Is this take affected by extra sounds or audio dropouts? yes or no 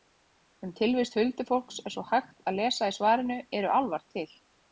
no